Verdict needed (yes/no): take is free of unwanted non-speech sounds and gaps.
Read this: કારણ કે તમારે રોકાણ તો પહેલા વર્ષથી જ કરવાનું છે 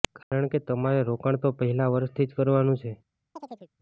no